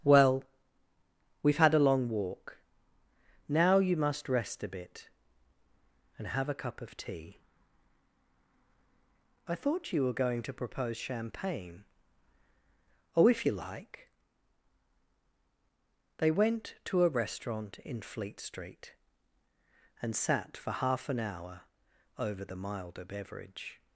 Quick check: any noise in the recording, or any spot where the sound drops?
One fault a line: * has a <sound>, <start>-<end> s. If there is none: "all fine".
all fine